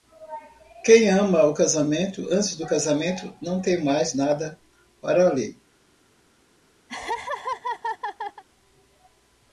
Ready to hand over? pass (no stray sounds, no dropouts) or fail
fail